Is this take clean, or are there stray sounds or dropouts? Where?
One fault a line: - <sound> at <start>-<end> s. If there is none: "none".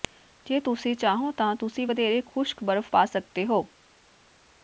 none